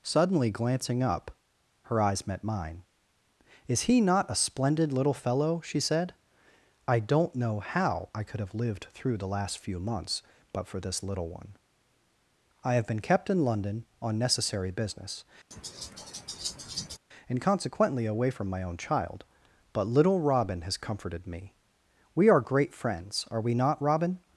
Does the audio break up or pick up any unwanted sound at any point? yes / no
yes